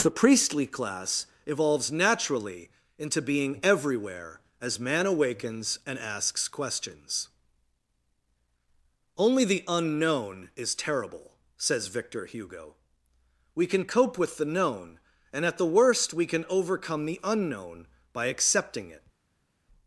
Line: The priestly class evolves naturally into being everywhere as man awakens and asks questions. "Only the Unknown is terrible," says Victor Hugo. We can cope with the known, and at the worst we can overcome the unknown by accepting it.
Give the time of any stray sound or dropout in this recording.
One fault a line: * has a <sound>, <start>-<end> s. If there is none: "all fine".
all fine